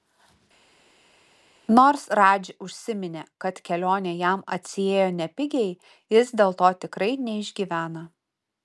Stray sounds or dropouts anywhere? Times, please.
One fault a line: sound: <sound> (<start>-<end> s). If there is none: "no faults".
no faults